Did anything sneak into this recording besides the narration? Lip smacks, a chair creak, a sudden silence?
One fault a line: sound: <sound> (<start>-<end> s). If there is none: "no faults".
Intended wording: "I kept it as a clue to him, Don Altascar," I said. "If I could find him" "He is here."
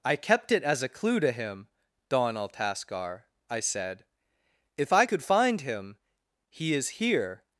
no faults